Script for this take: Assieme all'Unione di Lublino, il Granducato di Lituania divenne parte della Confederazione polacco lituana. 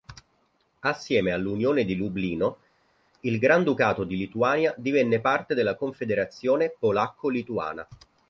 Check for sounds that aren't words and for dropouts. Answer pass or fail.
pass